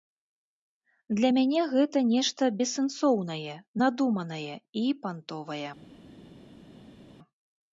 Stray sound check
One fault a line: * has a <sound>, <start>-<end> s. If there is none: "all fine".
all fine